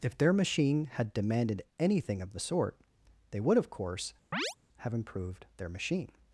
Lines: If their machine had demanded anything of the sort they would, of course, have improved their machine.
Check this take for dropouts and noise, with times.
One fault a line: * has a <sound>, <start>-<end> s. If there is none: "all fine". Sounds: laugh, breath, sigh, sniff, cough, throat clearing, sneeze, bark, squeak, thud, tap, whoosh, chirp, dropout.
* has a chirp, 4.3-4.6 s